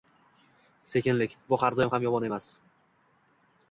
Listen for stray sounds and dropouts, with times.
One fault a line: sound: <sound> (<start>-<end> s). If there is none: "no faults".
no faults